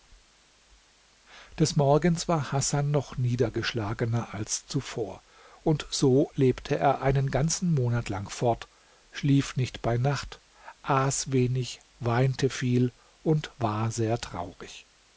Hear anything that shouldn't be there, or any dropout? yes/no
no